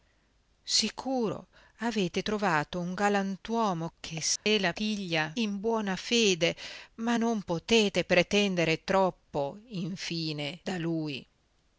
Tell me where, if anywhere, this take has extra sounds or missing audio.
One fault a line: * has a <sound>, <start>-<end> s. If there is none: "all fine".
* has a dropout, 4.4-4.5 s